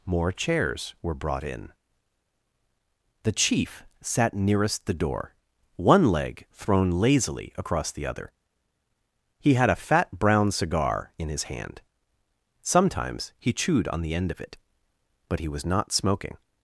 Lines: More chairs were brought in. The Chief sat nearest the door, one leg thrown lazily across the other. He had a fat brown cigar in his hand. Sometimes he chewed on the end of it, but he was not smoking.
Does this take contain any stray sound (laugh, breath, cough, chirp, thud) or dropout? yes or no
no